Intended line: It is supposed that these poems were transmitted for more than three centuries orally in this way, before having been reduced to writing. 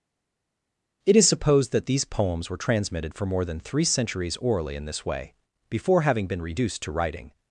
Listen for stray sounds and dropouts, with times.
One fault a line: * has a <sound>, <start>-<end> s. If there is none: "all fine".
all fine